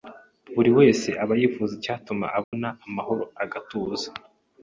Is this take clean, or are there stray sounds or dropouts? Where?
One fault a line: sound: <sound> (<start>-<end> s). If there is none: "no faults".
sound: dropout (2.4-2.5 s)